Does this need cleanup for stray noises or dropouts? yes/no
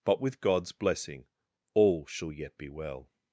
no